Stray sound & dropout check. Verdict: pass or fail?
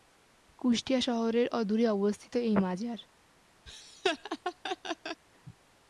fail